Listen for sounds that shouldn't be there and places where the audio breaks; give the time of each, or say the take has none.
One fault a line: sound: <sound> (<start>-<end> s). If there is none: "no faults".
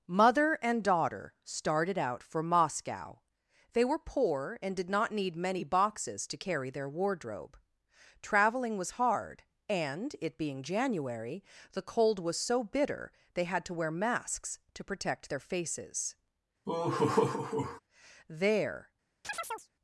sound: laugh (16.6-17.8 s)
sound: chirp (19.2-19.7 s)